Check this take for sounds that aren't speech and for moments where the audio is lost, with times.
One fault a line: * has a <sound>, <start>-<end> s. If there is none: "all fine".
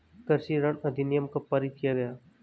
all fine